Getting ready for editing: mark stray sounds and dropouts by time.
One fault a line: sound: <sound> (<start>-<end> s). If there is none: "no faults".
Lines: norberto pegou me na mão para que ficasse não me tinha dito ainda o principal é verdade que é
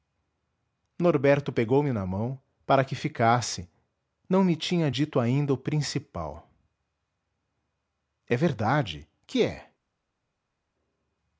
no faults